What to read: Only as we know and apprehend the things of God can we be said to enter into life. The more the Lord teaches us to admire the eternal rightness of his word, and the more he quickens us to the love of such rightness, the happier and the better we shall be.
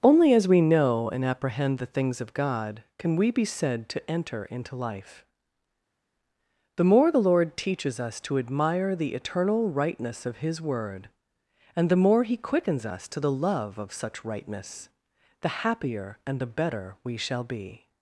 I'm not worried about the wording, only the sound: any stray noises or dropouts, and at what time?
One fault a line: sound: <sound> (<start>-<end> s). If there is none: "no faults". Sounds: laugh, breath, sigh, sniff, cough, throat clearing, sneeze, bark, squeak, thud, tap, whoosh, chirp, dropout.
no faults